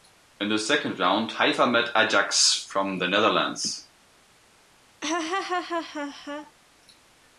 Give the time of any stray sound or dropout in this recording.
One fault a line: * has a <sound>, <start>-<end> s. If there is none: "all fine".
* has a laugh, 5.0-6.5 s